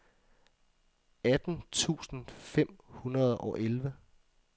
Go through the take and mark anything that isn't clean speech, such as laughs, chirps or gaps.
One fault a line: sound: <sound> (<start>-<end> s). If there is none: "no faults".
no faults